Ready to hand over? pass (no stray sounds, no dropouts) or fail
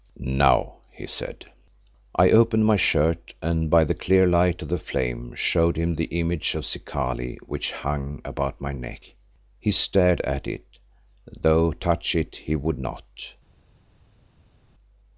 pass